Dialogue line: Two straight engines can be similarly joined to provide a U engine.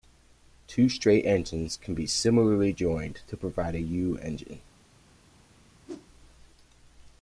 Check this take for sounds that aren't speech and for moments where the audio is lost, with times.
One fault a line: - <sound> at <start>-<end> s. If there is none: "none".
- whoosh at 5.9-6.1 s